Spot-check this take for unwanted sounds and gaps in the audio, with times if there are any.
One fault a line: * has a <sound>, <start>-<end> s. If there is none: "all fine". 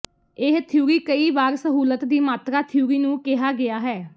all fine